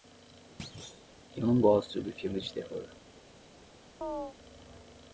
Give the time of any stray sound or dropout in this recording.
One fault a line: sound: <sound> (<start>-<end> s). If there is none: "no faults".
sound: thud (0.6-1.2 s)
sound: chirp (4.0-4.4 s)